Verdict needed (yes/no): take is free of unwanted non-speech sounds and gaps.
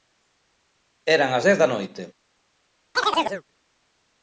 no